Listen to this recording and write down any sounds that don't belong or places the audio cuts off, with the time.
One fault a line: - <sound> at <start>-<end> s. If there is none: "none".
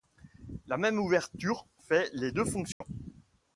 - dropout at 2.7-2.8 s